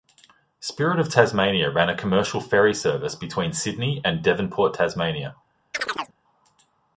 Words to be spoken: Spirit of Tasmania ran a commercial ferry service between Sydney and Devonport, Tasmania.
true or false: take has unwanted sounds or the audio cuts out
true